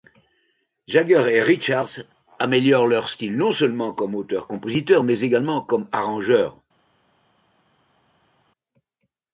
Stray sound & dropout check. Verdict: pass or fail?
pass